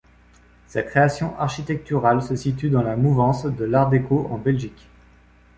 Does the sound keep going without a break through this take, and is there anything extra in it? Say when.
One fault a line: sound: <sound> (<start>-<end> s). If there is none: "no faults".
no faults